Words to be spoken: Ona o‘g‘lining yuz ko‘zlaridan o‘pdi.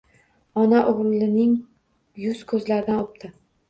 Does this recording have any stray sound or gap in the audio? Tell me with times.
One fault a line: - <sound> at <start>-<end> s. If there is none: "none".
none